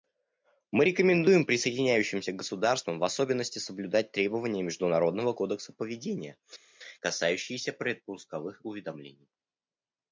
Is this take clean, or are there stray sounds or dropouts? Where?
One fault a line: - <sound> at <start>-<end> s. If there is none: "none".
none